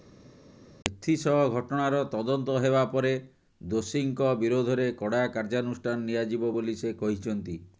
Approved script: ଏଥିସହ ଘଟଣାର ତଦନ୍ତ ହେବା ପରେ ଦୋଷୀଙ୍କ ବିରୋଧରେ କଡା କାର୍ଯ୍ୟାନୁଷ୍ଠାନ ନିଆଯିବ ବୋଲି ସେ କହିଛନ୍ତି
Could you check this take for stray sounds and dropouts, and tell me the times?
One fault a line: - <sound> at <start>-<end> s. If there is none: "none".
none